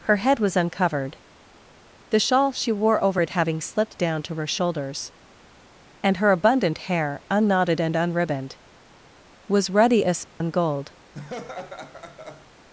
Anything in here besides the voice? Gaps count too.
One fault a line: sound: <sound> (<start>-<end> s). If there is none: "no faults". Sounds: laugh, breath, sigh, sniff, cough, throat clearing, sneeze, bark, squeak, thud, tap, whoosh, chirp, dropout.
sound: dropout (10.3-10.4 s)
sound: laugh (11.1-12.5 s)